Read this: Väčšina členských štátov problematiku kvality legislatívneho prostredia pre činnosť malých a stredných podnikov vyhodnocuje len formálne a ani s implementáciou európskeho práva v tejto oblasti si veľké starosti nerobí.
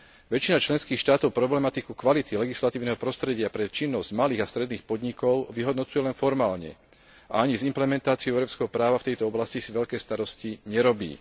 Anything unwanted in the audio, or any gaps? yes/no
no